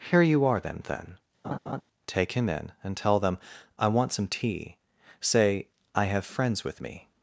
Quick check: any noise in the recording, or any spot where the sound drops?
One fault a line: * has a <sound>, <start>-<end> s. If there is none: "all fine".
* has a laugh, 1.4-1.8 s